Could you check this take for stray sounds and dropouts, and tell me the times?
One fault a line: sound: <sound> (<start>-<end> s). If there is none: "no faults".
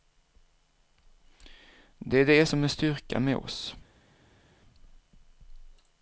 no faults